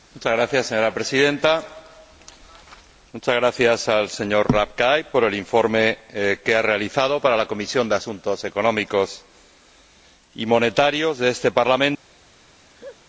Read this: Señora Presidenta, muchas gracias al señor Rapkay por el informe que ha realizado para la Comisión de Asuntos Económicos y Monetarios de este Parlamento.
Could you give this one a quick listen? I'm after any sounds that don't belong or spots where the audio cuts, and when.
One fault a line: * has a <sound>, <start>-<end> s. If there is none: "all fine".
* has a laugh, 12.7-13.0 s